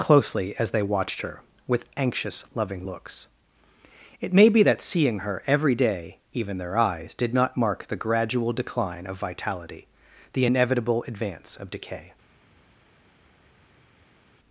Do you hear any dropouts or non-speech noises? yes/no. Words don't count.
no